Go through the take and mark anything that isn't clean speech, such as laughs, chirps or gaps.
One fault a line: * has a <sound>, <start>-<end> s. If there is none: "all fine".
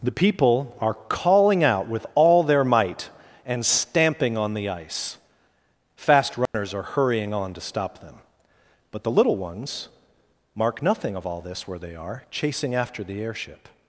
* has a dropout, 6.5-6.5 s